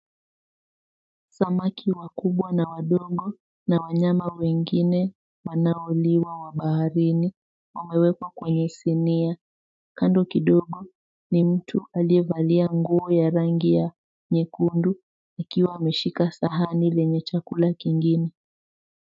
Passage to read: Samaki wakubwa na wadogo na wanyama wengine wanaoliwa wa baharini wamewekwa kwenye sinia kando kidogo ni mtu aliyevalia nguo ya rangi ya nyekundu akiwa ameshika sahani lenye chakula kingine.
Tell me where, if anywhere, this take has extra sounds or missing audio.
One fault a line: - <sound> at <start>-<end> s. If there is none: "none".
none